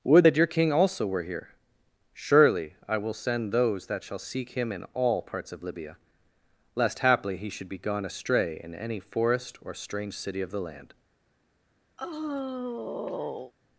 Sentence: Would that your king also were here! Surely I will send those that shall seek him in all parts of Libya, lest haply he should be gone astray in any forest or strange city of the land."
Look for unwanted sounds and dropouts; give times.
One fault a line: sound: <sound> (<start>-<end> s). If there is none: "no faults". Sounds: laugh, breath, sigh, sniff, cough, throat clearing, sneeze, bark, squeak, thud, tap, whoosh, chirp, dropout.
sound: sigh (12.0-13.5 s)